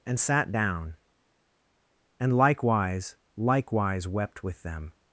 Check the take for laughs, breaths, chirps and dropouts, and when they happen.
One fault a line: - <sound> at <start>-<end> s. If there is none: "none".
none